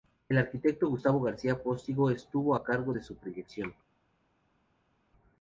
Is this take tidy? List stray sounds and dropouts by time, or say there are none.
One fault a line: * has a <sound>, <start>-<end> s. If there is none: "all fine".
all fine